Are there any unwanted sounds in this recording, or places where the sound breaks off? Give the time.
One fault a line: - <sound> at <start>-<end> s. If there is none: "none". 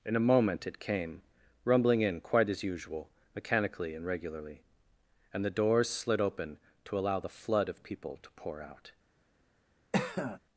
- cough at 9.9-10.4 s